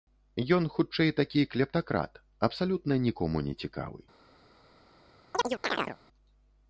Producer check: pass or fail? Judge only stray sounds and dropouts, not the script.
fail